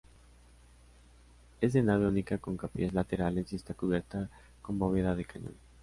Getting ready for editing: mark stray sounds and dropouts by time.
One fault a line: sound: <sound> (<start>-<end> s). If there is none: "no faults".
no faults